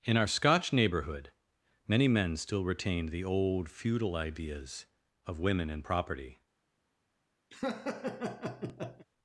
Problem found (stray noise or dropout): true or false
true